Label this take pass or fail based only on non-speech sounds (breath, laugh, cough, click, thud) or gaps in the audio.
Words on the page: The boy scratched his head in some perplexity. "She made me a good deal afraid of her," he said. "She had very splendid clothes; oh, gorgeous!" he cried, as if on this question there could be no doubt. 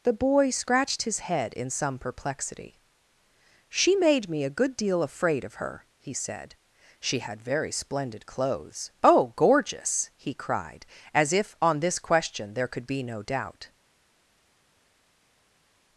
pass